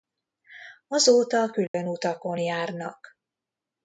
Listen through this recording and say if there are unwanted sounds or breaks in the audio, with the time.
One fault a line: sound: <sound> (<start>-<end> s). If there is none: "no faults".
sound: dropout (1.7-1.7 s)